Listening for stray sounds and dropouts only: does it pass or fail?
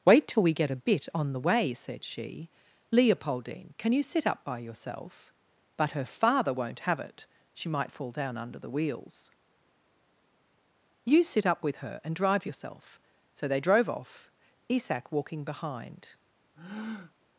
fail